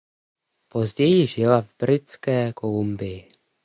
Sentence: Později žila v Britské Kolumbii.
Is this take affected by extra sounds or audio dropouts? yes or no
no